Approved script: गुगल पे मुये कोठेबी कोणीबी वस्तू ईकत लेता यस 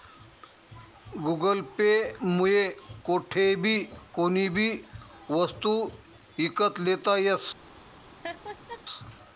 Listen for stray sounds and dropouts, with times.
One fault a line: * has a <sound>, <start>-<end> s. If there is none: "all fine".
* has a laugh, 8.2-8.8 s